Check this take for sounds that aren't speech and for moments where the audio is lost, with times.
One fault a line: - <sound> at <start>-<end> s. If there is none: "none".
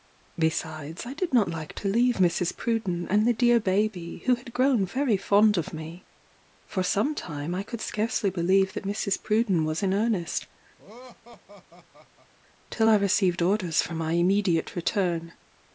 - laugh at 10.8-12.3 s